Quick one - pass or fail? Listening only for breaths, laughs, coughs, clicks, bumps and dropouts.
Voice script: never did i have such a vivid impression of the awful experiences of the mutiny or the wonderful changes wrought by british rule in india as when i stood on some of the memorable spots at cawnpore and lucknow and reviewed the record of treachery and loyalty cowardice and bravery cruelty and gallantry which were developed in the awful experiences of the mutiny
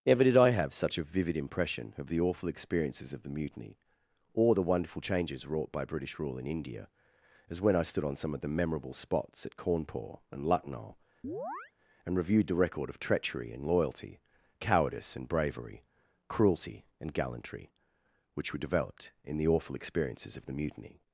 fail